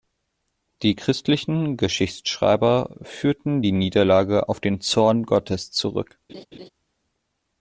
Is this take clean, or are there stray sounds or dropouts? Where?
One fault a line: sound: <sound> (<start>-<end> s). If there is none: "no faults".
sound: laugh (6.3-6.7 s)